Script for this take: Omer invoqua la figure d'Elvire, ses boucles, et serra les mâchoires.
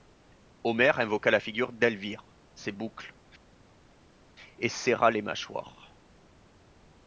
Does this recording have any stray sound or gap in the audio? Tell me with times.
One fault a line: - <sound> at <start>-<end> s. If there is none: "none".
none